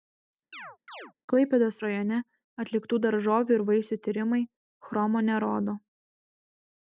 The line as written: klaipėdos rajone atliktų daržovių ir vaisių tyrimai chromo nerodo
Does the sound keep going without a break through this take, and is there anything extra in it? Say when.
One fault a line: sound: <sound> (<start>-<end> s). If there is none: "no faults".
sound: chirp (0.5-1.1 s)